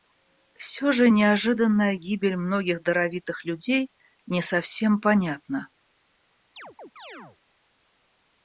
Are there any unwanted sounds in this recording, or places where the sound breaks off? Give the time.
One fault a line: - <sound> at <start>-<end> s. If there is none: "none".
- chirp at 6.6-7.4 s